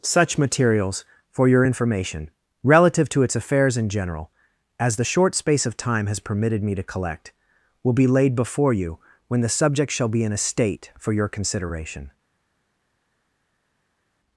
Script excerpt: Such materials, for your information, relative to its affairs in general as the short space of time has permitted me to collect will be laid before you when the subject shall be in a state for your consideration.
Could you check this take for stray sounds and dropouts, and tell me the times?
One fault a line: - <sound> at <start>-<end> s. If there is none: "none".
none